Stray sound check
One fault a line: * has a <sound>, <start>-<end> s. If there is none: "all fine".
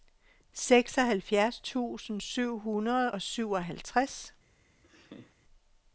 * has a laugh, 4.8-5.4 s